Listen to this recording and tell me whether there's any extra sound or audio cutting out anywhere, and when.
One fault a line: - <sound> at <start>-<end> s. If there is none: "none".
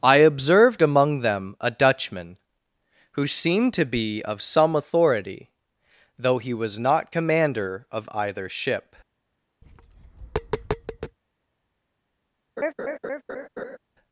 - tap at 9.6-11.2 s
- laugh at 12.6-13.8 s